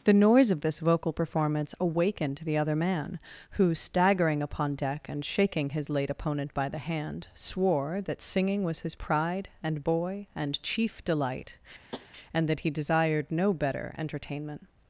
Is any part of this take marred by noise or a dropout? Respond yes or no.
yes